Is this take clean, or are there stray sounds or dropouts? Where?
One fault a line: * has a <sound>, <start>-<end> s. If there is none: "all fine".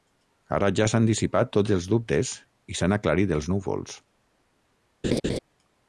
* has a laugh, 5.0-5.4 s